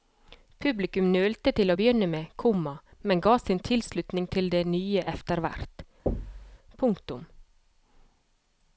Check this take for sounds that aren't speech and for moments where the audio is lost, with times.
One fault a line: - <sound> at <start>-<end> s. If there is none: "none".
- thud at 6.1-6.6 s